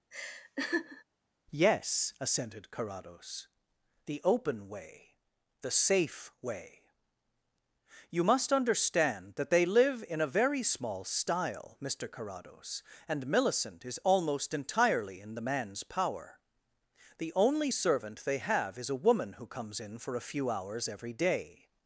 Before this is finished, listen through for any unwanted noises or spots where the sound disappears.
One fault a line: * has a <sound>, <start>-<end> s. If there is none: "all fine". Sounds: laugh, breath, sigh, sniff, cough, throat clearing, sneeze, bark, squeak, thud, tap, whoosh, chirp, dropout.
* has a laugh, 0.1-1.0 s